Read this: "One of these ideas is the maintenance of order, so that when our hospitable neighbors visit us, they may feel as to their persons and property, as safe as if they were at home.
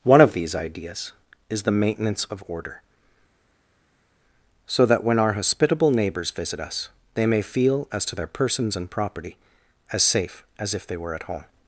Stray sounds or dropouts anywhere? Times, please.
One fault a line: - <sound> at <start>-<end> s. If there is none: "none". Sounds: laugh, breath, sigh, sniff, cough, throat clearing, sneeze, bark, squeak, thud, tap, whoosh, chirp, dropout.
none